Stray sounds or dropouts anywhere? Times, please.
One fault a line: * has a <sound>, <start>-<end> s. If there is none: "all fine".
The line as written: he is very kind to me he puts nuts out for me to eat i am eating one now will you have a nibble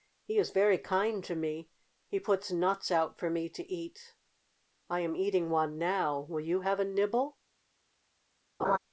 * has a laugh, 8.6-8.8 s